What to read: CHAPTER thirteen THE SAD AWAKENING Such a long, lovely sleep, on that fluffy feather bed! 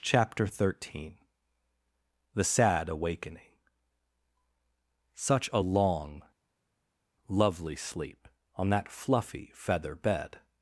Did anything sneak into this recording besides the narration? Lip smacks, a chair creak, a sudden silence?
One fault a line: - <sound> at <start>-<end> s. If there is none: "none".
none